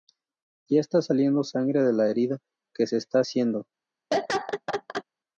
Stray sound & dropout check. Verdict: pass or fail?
fail